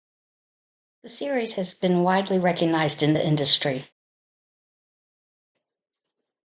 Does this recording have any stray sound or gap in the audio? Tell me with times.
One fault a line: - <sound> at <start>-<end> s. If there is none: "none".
none